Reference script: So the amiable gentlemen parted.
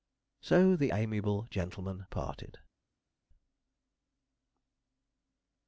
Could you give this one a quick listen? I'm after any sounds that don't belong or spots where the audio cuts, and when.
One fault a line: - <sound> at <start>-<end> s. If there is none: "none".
none